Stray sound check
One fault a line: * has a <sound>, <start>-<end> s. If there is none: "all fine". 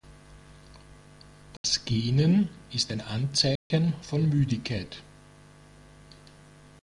* has a dropout, 1.6-1.6 s
* has a dropout, 3.6-3.7 s